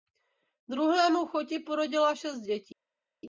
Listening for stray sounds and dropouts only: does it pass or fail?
pass